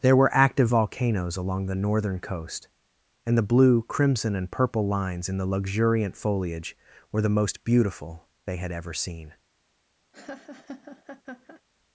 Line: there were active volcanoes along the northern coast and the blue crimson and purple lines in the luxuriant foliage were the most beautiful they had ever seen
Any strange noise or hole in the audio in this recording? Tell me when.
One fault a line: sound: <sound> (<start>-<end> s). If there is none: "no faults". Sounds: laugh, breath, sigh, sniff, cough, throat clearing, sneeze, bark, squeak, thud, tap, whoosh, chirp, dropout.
sound: laugh (10.1-11.6 s)